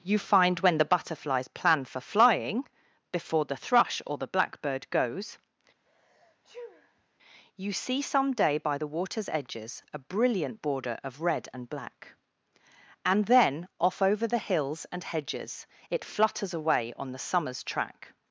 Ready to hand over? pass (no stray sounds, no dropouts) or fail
fail